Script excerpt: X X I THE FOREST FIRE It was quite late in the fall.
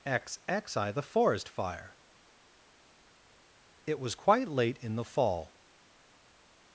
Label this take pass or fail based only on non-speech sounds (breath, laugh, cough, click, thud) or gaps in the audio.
pass